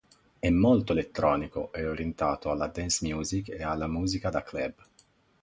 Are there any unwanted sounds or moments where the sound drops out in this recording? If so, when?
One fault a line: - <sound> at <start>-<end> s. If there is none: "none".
none